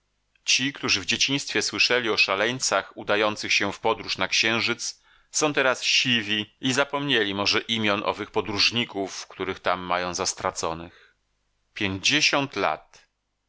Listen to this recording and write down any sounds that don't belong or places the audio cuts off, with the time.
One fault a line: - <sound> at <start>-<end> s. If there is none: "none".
none